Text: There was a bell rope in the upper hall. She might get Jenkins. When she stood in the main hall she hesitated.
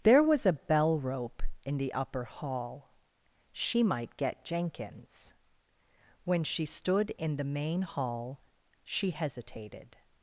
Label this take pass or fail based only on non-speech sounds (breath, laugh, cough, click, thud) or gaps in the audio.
pass